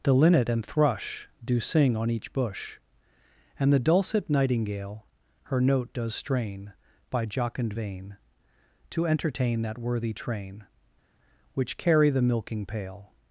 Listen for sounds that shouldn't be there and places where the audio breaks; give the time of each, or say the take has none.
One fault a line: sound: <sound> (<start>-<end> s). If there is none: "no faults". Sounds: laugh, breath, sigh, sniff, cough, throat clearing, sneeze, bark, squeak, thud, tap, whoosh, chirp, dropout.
no faults